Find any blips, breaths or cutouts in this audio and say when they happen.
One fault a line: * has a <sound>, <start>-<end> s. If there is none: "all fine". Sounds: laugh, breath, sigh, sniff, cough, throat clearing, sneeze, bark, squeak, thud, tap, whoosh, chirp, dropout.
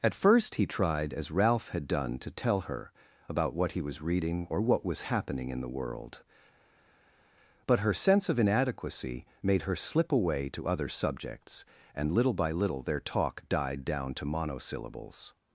all fine